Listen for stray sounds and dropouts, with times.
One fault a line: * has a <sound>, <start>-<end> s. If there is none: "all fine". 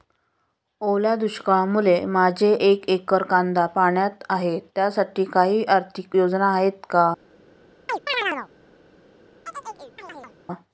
* has a chirp, 7.9-8.5 s
* has a chirp, 9.5-10.4 s